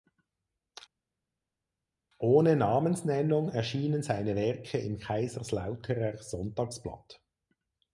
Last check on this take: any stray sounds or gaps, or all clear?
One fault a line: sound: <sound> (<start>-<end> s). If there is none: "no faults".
no faults